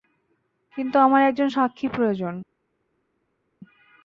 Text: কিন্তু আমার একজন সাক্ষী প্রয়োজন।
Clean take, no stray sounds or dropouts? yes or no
yes